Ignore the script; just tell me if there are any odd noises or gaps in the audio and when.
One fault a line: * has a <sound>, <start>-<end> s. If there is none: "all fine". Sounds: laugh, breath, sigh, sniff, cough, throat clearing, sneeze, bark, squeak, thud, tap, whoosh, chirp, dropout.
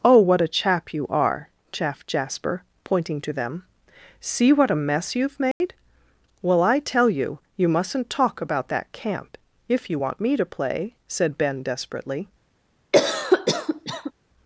* has a dropout, 5.5-5.6 s
* has a cough, 12.9-14.1 s